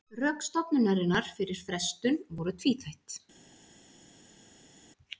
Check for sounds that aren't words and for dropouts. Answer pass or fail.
pass